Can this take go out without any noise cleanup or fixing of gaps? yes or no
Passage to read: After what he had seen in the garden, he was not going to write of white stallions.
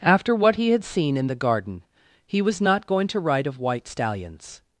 yes